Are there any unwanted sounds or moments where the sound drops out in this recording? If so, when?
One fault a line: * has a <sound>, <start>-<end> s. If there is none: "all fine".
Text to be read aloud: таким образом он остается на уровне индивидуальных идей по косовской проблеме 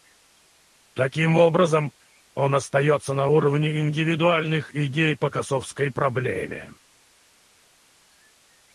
all fine